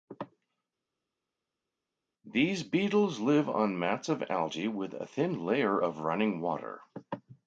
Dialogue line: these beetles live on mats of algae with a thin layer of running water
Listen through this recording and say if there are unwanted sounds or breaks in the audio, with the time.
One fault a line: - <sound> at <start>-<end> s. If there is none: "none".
none